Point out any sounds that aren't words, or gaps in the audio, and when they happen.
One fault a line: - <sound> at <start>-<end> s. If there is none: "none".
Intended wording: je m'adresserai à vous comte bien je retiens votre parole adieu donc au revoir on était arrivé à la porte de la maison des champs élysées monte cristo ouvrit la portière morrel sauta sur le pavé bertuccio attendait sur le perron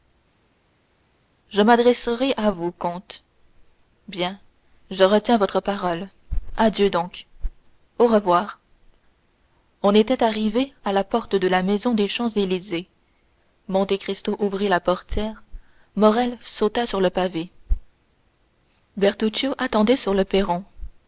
none